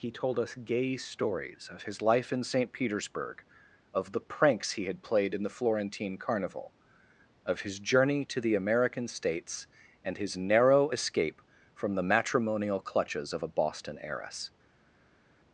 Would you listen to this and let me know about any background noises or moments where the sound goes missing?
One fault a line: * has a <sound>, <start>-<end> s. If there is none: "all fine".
all fine